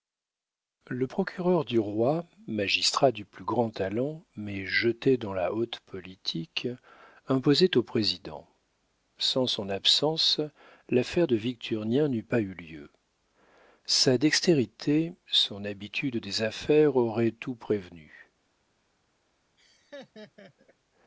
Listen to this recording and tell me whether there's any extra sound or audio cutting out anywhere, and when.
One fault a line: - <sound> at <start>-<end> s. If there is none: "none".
- laugh at 19.6-20.8 s